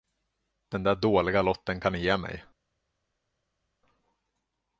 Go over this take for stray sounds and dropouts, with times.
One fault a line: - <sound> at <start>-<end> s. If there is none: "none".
none